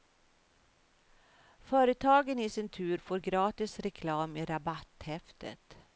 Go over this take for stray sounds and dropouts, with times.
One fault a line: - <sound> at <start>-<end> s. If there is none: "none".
none